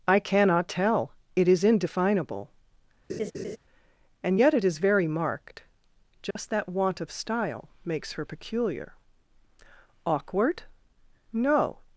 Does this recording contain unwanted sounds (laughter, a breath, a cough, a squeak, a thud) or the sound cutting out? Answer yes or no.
yes